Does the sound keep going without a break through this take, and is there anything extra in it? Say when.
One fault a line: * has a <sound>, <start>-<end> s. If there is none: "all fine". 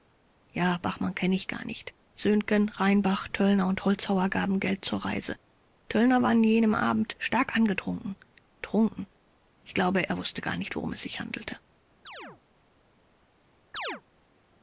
* has a chirp, 12.1-12.4 s
* has a chirp, 13.7-14.0 s